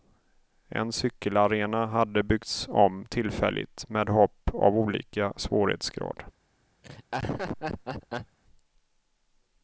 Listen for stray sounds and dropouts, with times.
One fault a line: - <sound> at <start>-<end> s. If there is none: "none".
- laugh at 6.8-8.4 s